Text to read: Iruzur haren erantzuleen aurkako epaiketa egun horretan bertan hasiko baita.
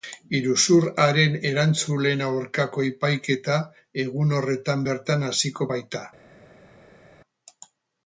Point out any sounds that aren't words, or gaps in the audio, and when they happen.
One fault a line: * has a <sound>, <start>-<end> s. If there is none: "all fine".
all fine